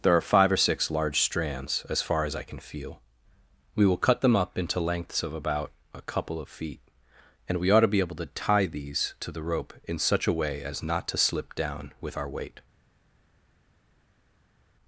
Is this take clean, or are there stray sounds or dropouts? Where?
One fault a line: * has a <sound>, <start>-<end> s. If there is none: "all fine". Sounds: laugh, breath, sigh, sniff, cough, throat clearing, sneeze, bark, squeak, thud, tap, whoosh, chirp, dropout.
all fine